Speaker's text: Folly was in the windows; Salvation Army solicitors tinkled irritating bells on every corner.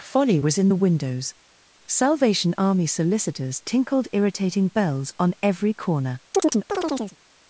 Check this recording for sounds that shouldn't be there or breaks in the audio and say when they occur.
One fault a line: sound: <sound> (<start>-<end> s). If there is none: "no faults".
sound: chirp (6.3-7.2 s)